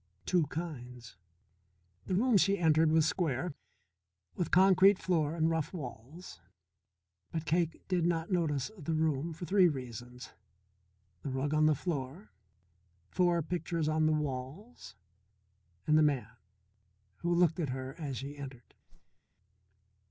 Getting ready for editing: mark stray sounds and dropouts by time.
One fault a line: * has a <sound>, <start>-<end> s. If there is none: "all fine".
* has a whoosh, 18.9-19.2 s